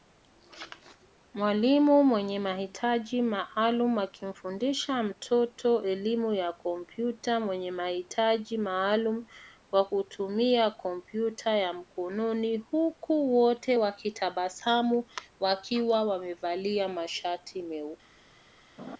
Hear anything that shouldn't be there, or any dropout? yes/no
yes